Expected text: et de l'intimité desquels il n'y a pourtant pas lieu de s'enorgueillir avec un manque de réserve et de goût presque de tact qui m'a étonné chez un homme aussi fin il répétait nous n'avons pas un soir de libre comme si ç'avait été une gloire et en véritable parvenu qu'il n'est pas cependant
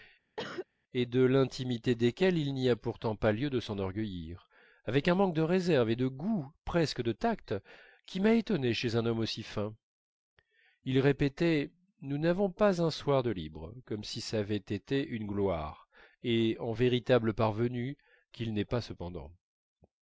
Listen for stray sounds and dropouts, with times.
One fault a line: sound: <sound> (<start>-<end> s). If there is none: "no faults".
sound: cough (0.4-0.7 s)